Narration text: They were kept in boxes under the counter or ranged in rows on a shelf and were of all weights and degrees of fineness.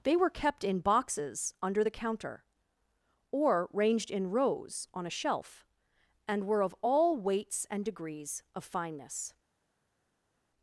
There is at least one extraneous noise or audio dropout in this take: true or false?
false